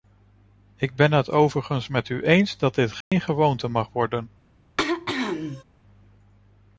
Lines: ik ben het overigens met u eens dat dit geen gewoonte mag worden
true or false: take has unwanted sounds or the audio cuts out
true